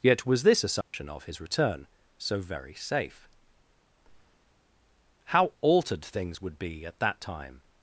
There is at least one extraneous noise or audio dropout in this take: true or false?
true